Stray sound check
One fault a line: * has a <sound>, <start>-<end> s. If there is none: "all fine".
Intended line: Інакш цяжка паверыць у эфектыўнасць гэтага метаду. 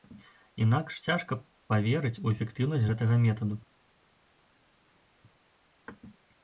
all fine